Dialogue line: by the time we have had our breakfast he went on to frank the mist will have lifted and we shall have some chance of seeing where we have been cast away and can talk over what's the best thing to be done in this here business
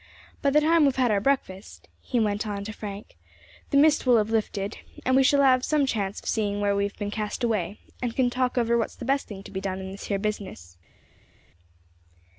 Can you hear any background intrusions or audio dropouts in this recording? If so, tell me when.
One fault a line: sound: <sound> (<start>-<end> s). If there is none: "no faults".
no faults